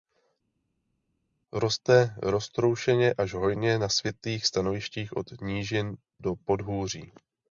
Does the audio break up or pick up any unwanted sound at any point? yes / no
no